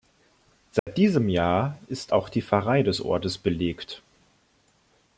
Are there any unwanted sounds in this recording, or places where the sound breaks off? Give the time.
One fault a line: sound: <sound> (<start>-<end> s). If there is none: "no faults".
sound: dropout (0.8-0.9 s)